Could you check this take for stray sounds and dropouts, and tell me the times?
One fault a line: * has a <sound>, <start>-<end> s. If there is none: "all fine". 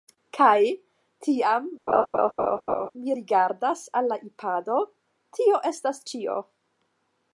* has a laugh, 1.9-2.9 s